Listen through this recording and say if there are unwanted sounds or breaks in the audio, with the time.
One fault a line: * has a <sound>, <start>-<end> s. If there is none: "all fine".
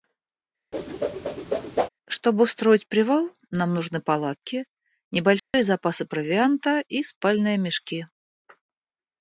* has a whoosh, 0.7-1.9 s
* has a dropout, 5.4-5.5 s